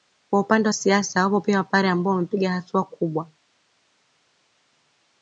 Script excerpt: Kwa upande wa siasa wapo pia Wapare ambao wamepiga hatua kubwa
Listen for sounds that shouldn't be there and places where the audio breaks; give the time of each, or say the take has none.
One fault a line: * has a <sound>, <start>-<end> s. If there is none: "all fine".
all fine